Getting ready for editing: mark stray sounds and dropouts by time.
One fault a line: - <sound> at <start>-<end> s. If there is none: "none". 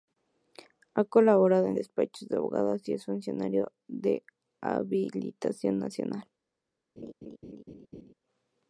- laugh at 7.0-8.1 s